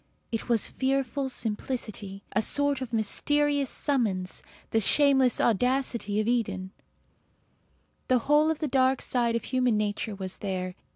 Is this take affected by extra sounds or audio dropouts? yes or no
no